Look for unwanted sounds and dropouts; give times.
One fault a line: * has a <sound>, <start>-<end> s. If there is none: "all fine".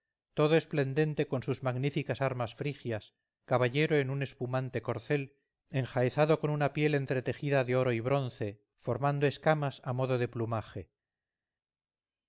all fine